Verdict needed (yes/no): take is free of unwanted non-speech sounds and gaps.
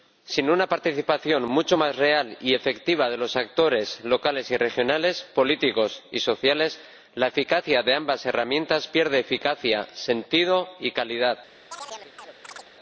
no